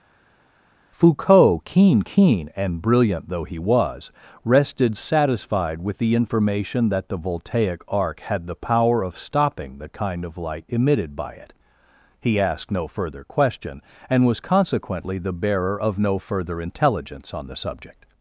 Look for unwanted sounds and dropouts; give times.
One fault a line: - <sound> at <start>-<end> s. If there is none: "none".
none